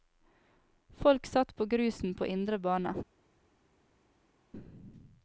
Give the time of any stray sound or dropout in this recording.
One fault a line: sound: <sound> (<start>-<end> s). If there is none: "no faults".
no faults